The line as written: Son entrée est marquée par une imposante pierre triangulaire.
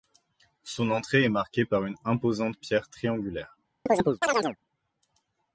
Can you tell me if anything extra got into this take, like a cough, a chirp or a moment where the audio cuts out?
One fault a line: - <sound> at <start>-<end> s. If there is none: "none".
- chirp at 3.9-4.6 s